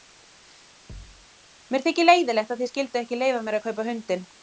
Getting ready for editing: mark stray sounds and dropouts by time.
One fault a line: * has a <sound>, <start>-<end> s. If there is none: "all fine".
* has a thud, 0.9-1.3 s